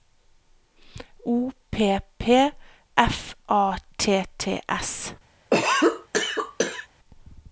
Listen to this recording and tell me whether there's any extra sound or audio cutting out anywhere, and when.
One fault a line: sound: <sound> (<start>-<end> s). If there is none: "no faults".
sound: cough (5.5-6.9 s)